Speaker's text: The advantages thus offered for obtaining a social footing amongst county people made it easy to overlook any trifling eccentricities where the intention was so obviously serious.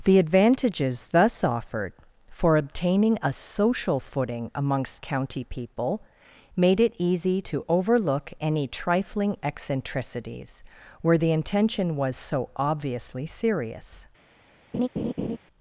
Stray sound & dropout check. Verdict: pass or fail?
fail